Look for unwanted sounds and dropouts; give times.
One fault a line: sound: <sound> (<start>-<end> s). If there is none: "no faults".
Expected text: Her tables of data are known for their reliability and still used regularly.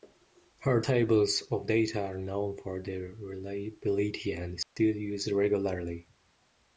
sound: dropout (4.6-4.8 s)